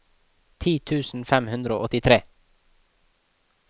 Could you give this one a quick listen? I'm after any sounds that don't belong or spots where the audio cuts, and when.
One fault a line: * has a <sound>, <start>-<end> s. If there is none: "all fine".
all fine